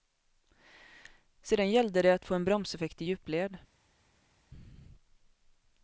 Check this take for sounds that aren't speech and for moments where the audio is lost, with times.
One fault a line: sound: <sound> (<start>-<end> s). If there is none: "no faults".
no faults